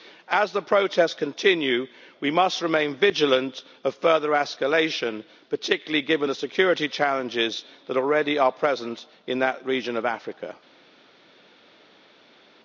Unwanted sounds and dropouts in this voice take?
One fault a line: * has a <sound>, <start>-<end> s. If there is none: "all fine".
all fine